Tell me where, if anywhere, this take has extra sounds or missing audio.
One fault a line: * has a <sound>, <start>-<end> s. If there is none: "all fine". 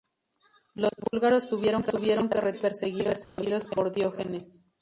* has a dropout, 3.2-3.4 s